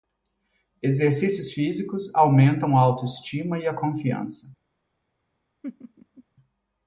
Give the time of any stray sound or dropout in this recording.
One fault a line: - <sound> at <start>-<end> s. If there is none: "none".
- laugh at 5.6-6.2 s